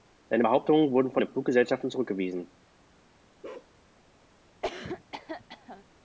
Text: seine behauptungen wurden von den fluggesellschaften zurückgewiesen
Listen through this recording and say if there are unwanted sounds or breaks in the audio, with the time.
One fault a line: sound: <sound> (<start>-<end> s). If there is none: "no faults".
sound: bark (3.4-3.7 s)
sound: cough (4.6-5.8 s)